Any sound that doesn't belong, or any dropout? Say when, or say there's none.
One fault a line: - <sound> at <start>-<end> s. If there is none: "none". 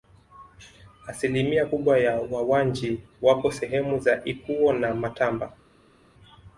none